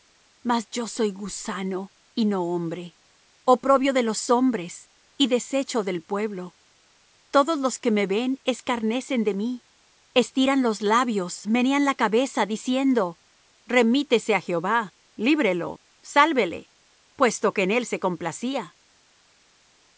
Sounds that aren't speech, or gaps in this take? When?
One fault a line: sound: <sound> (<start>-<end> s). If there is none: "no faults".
no faults